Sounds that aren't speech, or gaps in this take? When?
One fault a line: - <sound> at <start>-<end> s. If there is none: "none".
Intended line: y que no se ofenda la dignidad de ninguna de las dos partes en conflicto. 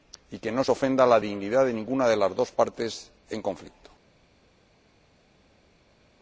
none